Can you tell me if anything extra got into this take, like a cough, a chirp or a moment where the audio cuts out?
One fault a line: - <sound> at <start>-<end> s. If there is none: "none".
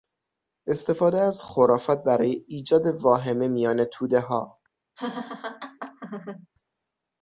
- laugh at 5.0-6.5 s